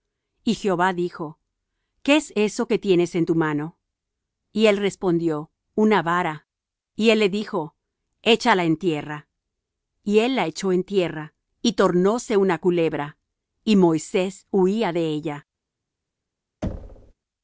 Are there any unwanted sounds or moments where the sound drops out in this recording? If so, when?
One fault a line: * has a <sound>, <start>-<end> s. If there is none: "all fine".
* has a thud, 16.6-17.1 s